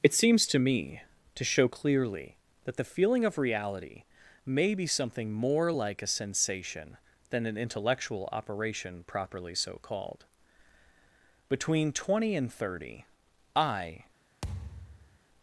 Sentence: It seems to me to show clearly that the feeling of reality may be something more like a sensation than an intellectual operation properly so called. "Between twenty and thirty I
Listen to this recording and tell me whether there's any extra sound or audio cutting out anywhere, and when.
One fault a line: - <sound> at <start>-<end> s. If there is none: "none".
- thud at 14.4-15.2 s